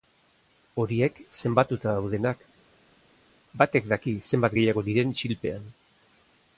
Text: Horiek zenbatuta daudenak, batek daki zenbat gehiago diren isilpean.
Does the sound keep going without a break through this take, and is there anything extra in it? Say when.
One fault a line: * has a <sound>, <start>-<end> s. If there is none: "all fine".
all fine